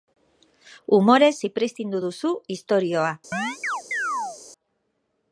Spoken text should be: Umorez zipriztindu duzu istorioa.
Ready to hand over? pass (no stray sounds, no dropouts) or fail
fail